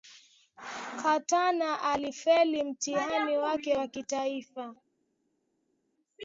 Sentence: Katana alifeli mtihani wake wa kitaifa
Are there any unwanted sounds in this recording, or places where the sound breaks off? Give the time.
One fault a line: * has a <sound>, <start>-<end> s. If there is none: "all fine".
all fine